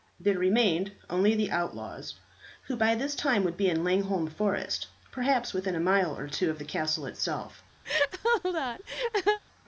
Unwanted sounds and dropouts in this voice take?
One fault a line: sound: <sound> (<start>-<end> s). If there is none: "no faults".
sound: laugh (7.8-9.4 s)